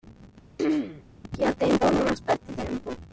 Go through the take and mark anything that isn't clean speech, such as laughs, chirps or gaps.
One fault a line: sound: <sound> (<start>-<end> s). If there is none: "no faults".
sound: throat clearing (0.6-1.0 s)